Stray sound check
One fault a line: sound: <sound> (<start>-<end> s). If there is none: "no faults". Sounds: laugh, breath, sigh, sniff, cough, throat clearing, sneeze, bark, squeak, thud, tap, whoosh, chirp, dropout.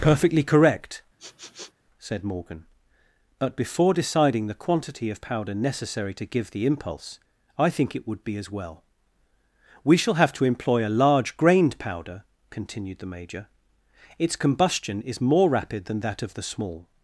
sound: sniff (1.2-1.7 s)